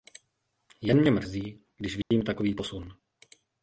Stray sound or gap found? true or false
true